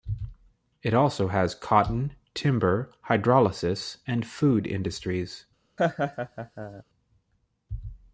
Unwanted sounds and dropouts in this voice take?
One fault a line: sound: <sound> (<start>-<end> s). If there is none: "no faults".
sound: laugh (5.8-6.8 s)